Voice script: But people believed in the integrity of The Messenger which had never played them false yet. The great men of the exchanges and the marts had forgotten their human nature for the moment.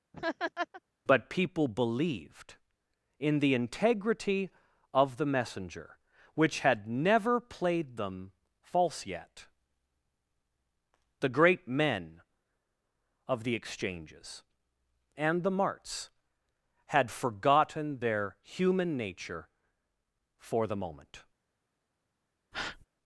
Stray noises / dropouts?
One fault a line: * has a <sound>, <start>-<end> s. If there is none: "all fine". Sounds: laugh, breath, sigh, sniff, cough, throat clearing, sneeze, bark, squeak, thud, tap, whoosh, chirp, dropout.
* has a laugh, 0.1-0.8 s
* has a breath, 22.5-22.9 s